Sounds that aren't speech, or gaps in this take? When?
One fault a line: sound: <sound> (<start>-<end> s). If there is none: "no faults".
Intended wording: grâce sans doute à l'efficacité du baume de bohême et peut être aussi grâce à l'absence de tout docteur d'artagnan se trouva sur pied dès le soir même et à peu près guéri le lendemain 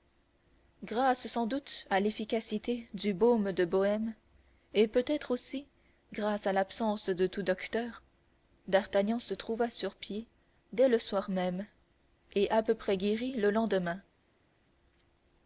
no faults